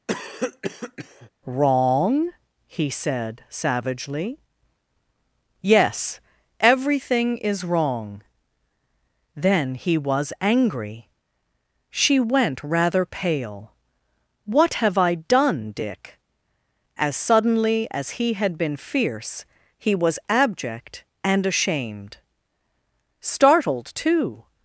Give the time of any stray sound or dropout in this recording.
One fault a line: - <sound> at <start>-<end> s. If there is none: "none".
- cough at 0.1-1.3 s